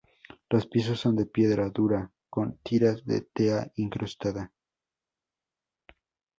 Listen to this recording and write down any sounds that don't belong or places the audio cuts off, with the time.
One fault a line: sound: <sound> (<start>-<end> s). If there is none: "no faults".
no faults